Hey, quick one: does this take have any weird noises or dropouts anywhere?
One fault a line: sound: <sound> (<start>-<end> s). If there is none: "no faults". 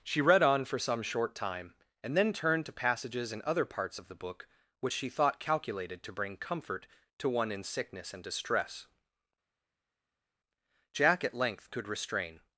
no faults